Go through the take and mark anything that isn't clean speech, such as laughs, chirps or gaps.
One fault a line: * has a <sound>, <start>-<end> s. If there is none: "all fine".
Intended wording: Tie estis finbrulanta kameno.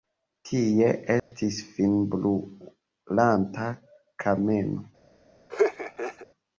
* has a dropout, 1.2-1.3 s
* has a laugh, 5.5-6.3 s